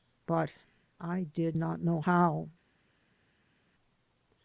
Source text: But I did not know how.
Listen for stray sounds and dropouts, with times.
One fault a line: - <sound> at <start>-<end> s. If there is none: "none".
none